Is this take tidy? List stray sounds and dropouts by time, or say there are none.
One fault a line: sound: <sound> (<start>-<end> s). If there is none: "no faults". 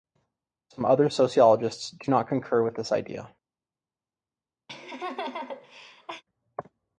sound: laugh (4.7-6.2 s)